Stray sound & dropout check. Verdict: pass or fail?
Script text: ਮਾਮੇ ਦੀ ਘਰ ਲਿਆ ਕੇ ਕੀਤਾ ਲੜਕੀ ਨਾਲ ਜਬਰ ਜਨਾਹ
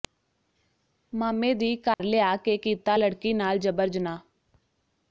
fail